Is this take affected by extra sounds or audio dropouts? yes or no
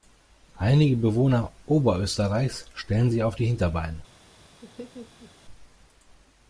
yes